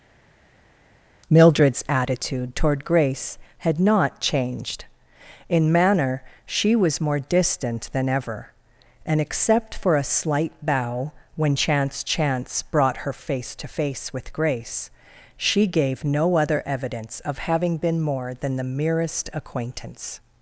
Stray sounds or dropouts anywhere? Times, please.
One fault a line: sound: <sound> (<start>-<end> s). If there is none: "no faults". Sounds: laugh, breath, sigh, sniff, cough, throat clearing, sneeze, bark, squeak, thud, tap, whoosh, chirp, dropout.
no faults